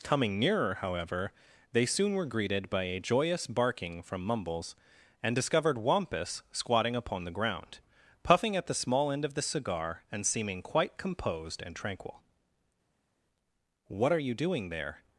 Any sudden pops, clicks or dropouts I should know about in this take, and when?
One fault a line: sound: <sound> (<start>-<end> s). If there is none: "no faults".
no faults